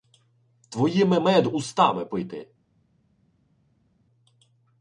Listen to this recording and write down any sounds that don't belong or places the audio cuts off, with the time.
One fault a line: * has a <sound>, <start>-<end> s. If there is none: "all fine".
all fine